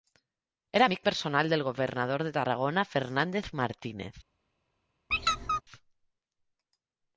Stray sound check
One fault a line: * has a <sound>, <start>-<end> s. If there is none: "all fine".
* has a squeak, 5.1-5.6 s